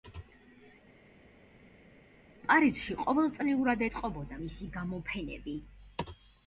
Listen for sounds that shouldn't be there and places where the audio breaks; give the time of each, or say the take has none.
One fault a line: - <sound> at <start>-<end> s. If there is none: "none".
none